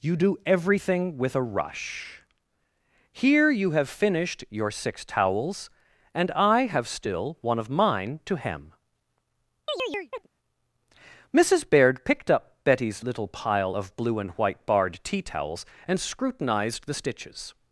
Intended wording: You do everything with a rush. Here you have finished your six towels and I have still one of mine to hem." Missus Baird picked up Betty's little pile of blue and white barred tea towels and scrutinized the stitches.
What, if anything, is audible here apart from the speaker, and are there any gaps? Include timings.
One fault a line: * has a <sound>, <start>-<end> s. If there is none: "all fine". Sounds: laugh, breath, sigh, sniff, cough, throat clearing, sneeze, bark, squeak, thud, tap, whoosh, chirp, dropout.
* has a chirp, 9.7-10.3 s